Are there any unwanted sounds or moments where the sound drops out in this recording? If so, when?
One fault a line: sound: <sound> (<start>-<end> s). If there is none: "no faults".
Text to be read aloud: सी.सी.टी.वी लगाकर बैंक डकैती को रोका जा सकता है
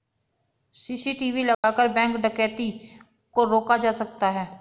sound: dropout (1.5-1.6 s)